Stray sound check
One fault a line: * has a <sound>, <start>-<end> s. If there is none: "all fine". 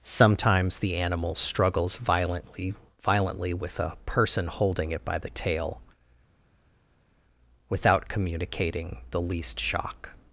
all fine